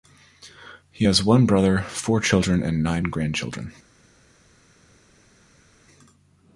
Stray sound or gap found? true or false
false